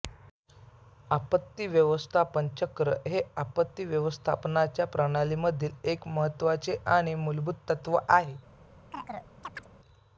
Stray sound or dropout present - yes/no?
yes